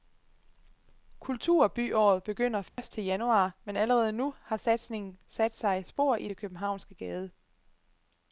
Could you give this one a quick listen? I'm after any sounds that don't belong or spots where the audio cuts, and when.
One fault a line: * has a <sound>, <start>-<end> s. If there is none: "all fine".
* has a dropout, 2.7-2.8 s